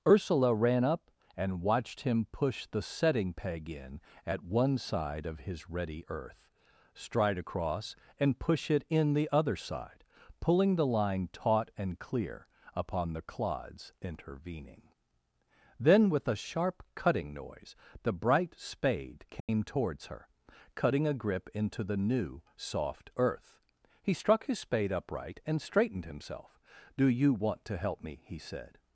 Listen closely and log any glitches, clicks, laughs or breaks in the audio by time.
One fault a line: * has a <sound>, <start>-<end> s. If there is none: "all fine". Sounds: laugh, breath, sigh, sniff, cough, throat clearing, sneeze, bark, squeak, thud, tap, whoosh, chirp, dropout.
* has a dropout, 19.4-19.5 s